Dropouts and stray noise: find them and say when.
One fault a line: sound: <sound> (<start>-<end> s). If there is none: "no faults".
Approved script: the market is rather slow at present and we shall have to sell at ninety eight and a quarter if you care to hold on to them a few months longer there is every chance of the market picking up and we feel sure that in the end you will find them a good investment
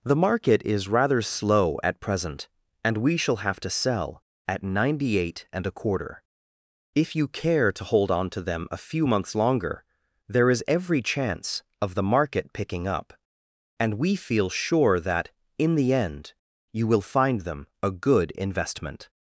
no faults